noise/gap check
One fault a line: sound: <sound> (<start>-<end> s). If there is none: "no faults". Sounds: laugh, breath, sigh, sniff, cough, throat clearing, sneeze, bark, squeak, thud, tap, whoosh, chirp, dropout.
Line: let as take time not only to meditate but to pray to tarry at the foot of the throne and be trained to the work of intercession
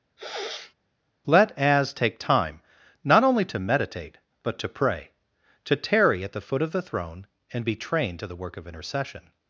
sound: sniff (0.2-0.7 s)